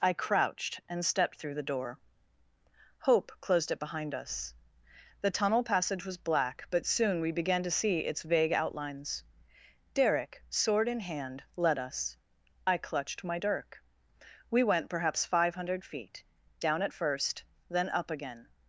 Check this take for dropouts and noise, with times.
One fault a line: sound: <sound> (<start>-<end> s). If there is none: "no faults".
no faults